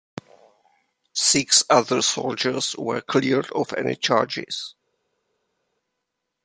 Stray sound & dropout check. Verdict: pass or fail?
pass